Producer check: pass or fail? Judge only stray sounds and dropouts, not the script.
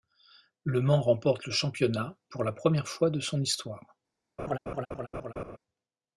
fail